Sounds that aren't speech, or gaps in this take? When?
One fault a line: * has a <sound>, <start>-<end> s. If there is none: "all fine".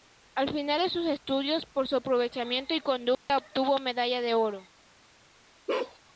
* has a dropout, 3.1-3.3 s
* has a bark, 5.7-6.0 s